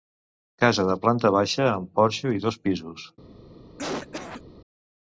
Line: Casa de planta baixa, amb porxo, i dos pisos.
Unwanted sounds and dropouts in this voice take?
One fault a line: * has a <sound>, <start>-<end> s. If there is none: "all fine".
* has a cough, 3.8-4.4 s